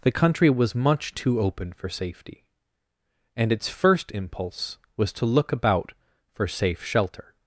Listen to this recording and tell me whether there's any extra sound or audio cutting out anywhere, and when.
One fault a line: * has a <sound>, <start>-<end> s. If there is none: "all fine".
all fine